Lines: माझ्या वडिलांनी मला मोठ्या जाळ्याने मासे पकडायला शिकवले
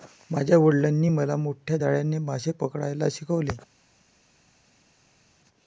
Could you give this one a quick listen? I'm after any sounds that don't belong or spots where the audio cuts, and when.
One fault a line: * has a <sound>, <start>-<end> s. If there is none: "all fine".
all fine